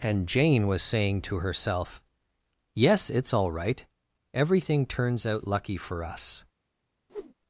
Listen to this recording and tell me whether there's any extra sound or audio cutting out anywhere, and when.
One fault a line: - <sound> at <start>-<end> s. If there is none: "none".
- whoosh at 7.1-7.3 s